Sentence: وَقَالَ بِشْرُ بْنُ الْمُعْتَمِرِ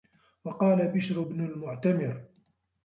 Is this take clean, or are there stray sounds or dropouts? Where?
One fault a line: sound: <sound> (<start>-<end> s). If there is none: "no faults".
no faults